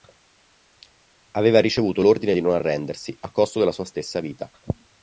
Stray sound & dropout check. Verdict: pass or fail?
pass